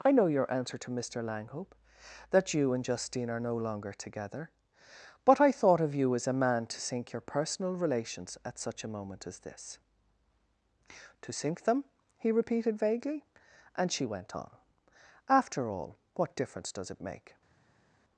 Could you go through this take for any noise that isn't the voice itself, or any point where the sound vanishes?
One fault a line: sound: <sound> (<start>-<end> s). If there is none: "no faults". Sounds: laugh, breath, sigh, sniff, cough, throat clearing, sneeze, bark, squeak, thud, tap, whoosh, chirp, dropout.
no faults